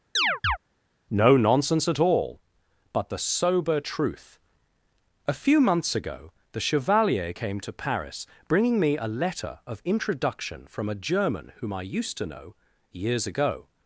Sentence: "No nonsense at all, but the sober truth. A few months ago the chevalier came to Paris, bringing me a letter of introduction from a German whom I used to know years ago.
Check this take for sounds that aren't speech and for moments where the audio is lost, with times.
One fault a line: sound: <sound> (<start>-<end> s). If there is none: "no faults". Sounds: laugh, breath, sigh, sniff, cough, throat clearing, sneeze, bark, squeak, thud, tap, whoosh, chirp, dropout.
sound: chirp (0.2-0.6 s)